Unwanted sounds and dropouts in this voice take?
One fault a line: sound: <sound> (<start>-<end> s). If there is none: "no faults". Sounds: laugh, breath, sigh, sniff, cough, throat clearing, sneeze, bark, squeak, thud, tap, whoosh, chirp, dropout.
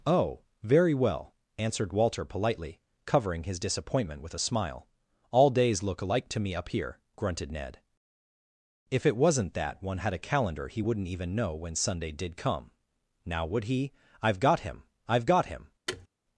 sound: thud (15.9-16.1 s)